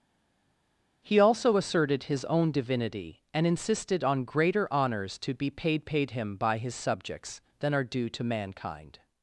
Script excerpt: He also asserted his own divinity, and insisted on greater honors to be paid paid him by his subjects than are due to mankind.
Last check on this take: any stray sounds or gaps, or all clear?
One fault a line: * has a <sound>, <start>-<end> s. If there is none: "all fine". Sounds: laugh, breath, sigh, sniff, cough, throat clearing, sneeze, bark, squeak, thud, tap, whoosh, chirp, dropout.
all fine